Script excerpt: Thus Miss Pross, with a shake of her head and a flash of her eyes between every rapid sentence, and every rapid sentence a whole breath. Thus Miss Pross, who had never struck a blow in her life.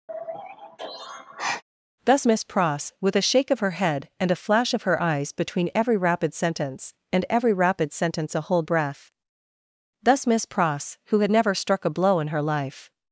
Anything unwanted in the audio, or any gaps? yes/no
yes